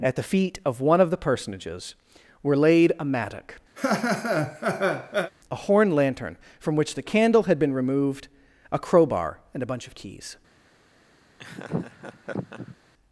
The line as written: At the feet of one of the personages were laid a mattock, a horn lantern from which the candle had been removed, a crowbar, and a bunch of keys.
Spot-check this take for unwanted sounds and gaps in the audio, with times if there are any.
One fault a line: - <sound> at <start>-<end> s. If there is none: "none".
- laugh at 3.8-5.3 s
- laugh at 11.4-12.8 s